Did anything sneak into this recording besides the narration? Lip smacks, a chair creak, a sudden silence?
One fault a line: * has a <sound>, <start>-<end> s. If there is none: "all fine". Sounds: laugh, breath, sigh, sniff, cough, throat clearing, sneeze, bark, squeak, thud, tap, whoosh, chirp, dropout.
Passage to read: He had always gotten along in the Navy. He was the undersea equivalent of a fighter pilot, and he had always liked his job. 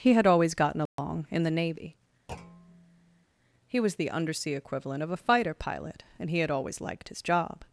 * has a dropout, 0.9-1.0 s
* has a thud, 2.3-3.3 s